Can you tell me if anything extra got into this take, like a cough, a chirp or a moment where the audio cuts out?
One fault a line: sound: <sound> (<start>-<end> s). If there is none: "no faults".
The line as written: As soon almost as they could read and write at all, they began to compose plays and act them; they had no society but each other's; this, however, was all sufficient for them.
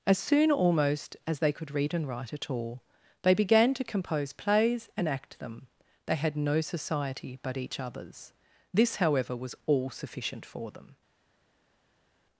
no faults